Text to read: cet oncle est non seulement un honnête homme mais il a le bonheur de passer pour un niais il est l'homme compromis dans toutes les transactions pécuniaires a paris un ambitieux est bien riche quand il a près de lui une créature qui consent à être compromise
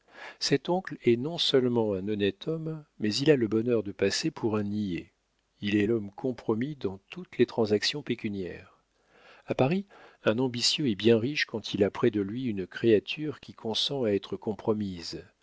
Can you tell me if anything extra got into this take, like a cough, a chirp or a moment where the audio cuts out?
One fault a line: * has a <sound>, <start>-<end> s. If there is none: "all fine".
all fine